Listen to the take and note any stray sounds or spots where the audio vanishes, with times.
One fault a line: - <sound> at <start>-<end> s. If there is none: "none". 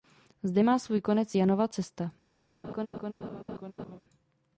- laugh at 2.6-4.0 s